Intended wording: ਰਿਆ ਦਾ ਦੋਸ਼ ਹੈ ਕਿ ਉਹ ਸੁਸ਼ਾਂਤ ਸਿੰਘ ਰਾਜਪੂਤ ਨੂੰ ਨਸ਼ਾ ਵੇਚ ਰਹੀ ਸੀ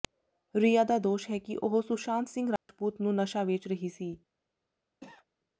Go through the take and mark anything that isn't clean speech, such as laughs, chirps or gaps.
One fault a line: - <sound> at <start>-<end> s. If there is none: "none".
- dropout at 2.6-2.7 s
- cough at 5.0-5.3 s